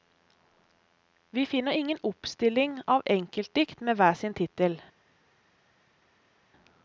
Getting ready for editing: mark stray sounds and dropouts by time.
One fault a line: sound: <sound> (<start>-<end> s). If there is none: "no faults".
no faults